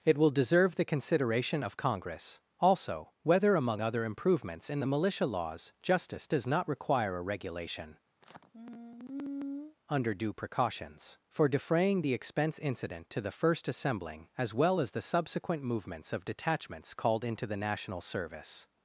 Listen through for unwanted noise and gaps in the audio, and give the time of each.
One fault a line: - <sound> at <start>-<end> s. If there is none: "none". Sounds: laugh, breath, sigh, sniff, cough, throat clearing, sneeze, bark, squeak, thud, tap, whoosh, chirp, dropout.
- sigh at 8.2-9.8 s